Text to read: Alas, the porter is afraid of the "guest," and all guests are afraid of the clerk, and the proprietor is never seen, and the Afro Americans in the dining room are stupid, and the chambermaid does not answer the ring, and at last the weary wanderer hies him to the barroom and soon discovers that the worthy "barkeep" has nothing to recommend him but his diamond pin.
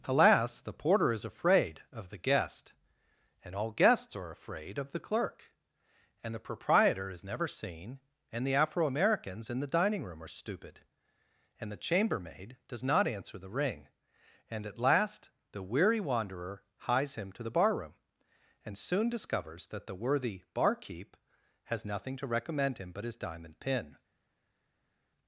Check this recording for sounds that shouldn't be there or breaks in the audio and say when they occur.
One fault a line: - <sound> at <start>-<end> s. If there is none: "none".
none